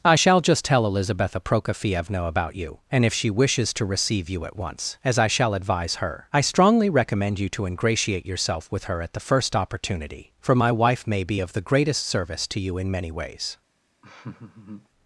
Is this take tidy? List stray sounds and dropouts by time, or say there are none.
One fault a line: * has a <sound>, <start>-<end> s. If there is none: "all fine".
* has a laugh, 14.0-14.9 s